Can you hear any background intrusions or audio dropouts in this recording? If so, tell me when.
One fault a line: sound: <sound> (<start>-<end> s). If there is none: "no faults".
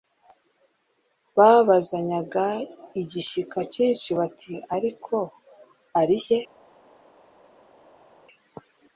no faults